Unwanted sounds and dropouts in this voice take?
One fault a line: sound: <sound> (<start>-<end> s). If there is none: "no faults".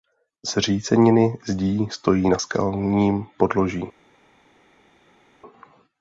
no faults